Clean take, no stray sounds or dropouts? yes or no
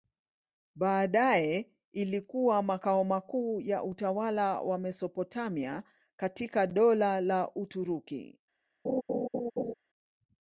no